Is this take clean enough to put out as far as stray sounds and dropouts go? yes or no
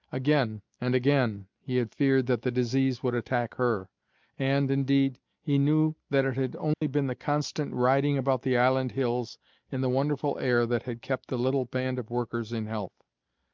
no